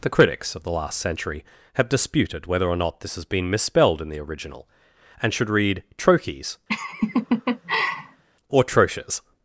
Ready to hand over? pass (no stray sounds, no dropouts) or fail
fail